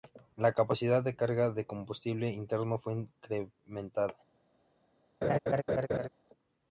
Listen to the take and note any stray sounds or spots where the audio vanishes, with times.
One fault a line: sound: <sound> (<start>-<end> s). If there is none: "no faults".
sound: laugh (5.2-6.1 s)